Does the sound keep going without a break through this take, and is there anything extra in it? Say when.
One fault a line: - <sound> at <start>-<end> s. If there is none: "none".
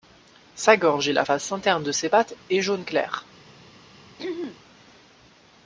- throat clearing at 4.2-4.6 s